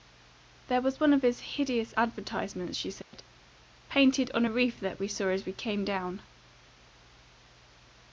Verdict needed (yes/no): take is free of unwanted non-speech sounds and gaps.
no